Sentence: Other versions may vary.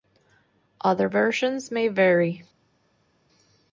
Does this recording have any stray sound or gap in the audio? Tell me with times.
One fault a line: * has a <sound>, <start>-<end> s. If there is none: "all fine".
all fine